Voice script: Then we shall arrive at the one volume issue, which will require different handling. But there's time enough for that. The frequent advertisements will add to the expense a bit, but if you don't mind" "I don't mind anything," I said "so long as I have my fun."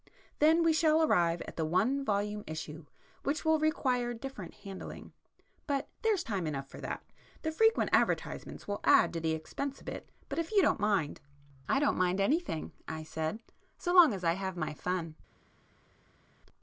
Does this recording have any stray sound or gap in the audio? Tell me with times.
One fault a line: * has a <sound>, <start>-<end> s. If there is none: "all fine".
all fine